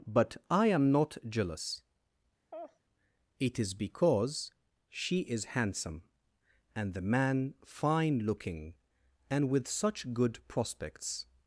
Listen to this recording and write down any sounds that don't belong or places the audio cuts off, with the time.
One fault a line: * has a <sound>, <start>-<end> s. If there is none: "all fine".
* has a laugh, 2.5-2.8 s